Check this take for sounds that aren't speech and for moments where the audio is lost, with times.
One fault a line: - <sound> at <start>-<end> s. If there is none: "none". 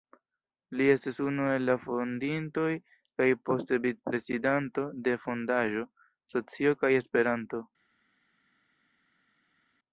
none